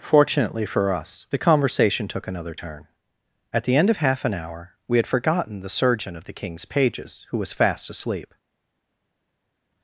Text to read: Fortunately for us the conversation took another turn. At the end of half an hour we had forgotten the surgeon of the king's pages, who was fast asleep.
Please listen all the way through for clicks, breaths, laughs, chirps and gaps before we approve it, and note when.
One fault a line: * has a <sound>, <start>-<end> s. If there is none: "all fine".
all fine